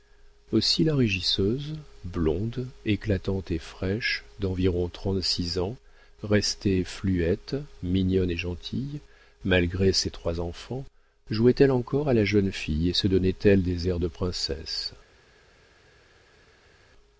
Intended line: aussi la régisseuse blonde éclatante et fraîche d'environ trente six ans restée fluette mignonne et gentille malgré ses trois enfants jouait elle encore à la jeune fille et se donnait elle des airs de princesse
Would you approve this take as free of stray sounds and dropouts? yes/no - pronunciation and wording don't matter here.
yes